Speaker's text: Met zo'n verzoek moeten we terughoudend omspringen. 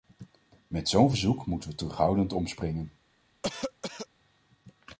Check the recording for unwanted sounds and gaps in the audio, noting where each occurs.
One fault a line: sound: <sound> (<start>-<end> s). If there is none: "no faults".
sound: cough (3.4-4.1 s)